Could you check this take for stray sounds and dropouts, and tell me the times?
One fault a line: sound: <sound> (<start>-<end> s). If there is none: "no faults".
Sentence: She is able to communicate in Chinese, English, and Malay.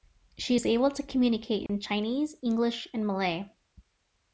sound: dropout (1.7-1.7 s)